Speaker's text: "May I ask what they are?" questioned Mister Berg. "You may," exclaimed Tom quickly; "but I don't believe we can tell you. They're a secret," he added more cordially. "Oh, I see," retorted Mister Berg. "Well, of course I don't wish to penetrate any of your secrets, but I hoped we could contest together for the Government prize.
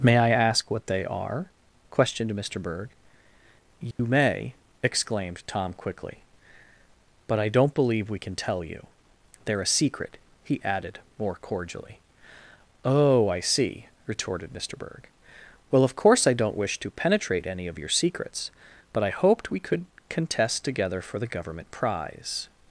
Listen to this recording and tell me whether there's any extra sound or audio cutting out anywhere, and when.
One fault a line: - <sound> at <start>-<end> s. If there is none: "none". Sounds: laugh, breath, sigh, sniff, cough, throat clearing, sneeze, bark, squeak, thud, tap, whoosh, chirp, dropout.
- dropout at 3.9-4.0 s